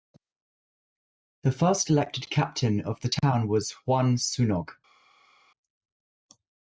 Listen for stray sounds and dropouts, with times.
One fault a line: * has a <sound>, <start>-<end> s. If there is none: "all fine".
all fine